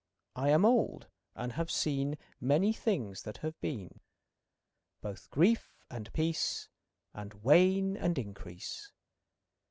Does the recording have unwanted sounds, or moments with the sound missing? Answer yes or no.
no